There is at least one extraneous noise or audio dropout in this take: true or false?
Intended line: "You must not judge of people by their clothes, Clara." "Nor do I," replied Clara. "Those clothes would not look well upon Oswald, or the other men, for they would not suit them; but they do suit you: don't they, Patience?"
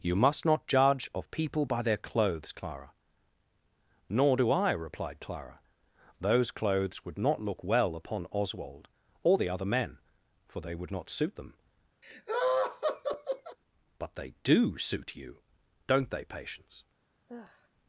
true